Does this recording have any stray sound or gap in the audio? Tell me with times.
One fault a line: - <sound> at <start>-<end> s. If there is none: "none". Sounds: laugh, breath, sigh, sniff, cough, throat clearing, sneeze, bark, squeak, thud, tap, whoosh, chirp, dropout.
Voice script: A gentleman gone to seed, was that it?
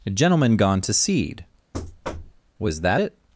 - thud at 1.7-2.4 s